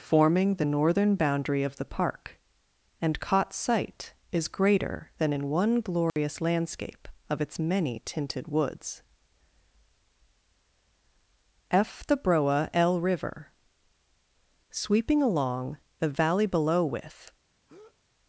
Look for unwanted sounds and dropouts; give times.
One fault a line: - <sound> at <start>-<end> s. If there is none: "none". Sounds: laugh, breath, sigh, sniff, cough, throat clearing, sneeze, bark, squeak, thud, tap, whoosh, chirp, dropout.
- dropout at 6.1-6.2 s
- breath at 17.7-18.0 s